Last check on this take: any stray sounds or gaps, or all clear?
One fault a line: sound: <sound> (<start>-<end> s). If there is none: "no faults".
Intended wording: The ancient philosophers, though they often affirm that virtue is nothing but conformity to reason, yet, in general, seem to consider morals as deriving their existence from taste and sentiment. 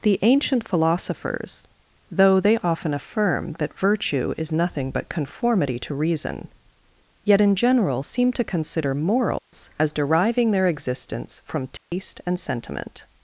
sound: dropout (9.4-9.5 s)
sound: dropout (11.8-11.9 s)